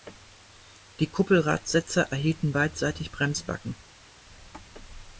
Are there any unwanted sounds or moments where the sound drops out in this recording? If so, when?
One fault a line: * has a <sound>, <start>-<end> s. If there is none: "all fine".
all fine